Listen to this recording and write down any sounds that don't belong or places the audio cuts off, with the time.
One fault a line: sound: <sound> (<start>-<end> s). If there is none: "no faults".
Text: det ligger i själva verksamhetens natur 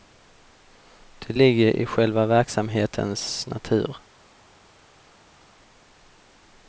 no faults